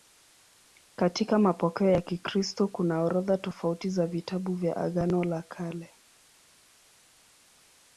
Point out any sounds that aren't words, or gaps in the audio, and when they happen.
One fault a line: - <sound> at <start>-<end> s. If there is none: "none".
none